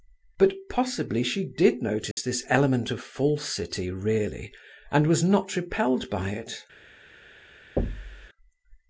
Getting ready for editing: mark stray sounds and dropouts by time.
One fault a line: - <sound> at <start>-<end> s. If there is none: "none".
- dropout at 2.1-2.2 s
- thud at 7.8-8.3 s